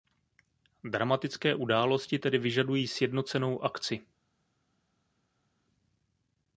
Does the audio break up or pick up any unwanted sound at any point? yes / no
no